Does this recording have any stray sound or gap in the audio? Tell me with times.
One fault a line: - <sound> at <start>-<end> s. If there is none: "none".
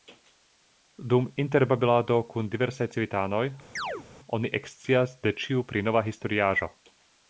- chirp at 3.8-4.1 s